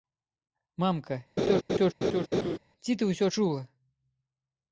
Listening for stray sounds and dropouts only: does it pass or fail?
fail